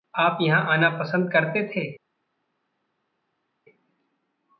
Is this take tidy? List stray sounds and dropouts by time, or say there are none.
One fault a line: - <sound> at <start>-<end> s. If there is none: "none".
none